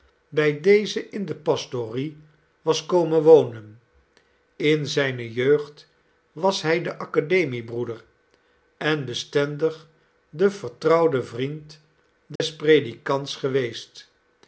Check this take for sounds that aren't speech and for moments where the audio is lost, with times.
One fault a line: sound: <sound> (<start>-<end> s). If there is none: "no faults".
sound: dropout (12.4-12.4 s)